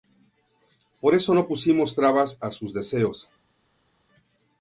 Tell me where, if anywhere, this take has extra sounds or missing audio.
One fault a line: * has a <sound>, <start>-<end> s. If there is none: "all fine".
all fine